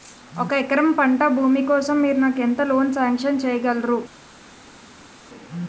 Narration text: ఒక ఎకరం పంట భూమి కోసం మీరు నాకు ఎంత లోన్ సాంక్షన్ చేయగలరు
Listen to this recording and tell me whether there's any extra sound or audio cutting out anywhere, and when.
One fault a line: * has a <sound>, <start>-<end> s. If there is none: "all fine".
all fine